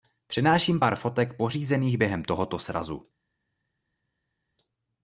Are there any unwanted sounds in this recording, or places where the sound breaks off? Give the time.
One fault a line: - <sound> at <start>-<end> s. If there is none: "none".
none